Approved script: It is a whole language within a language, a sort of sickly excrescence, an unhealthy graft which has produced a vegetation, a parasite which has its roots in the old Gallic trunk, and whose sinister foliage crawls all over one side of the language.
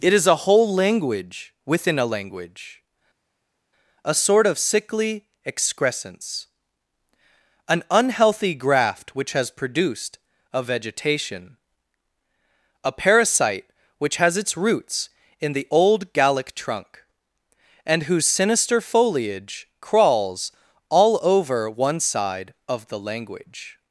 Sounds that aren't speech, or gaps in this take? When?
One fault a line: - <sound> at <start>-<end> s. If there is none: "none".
none